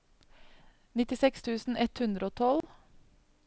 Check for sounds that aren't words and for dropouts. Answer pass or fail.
fail